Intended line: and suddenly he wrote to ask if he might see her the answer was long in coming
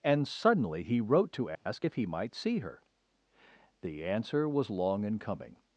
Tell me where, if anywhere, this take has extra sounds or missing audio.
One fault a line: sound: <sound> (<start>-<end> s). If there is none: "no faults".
sound: dropout (1.5-1.7 s)